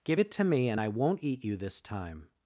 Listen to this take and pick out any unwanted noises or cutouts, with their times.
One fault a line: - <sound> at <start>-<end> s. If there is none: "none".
none